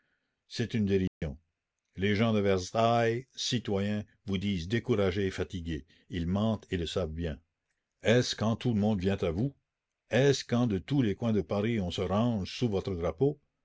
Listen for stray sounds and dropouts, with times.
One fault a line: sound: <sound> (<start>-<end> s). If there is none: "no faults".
sound: dropout (1.1-1.2 s)